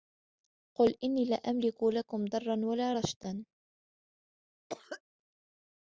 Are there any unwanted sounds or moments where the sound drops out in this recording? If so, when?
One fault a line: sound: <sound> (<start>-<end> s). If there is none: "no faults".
sound: cough (4.7-5.0 s)